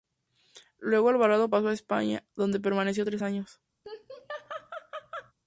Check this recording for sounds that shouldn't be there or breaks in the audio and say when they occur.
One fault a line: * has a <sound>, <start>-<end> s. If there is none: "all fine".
* has a laugh, 3.8-5.3 s